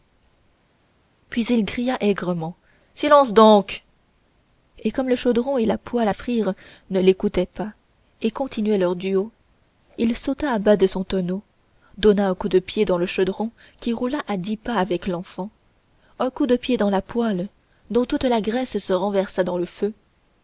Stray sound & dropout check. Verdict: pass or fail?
pass